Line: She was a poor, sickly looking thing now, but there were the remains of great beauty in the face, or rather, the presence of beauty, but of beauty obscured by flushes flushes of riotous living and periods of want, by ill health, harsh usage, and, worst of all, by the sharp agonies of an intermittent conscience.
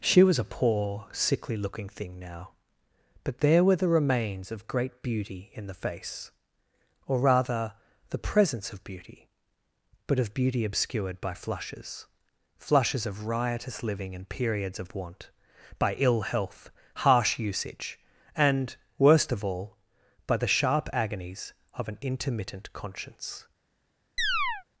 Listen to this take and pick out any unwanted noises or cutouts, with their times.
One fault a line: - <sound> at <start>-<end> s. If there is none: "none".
- chirp at 24.2-24.6 s